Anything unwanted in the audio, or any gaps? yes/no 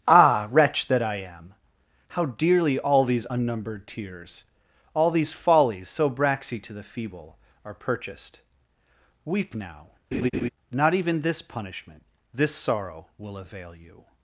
yes